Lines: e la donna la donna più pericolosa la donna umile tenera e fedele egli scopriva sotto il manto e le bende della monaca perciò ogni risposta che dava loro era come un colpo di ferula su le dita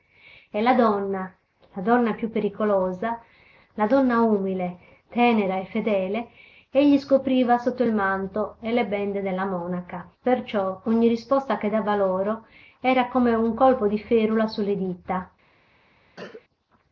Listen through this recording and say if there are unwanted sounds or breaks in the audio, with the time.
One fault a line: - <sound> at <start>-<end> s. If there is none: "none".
- cough at 16.2-16.4 s